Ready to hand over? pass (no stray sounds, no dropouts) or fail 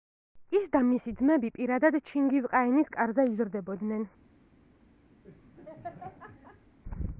fail